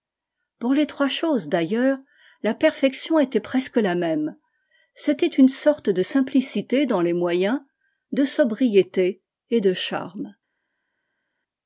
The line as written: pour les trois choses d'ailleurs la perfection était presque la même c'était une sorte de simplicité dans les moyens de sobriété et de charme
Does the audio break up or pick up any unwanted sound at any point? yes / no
no